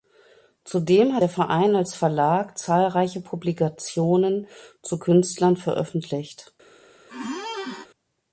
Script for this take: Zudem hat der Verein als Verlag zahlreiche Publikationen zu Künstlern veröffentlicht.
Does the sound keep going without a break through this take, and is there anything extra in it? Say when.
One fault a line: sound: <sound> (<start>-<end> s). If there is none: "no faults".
sound: squeak (7.1-7.9 s)